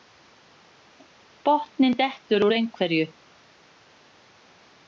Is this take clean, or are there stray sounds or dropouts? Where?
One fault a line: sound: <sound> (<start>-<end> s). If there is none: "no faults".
no faults